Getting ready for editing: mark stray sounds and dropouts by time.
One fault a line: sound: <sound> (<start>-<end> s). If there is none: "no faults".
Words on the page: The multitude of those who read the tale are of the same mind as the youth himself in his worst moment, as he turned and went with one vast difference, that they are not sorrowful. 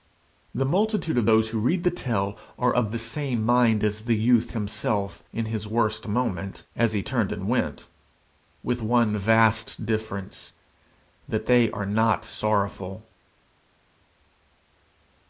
no faults